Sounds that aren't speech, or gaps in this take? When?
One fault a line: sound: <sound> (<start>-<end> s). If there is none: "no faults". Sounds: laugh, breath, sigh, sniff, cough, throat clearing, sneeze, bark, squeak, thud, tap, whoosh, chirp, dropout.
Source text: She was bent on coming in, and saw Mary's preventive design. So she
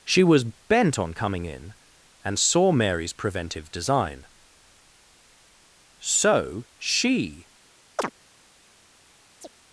sound: chirp (8.0-8.1 s)
sound: chirp (9.4-9.5 s)